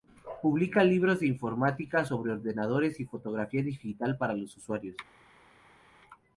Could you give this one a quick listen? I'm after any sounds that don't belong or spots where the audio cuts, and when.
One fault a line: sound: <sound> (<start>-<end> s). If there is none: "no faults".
no faults